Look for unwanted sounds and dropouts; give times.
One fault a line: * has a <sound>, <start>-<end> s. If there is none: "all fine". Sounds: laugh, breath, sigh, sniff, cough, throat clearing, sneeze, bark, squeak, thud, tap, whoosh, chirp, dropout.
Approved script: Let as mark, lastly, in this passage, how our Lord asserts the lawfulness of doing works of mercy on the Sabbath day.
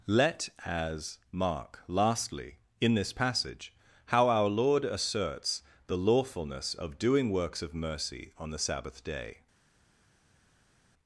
all fine